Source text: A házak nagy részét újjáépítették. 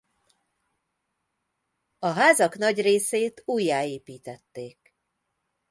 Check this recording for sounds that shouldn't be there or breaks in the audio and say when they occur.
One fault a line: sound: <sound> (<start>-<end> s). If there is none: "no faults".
no faults